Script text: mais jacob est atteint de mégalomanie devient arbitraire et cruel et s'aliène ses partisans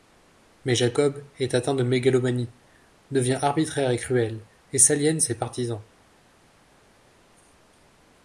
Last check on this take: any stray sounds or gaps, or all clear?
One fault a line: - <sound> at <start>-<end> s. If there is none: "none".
none